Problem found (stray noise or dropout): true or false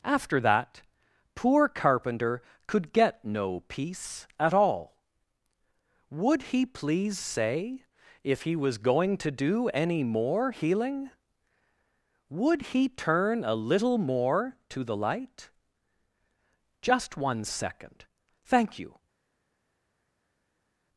false